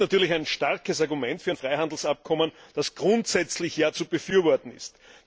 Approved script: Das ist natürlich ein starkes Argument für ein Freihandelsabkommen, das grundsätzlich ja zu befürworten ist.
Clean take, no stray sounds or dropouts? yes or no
yes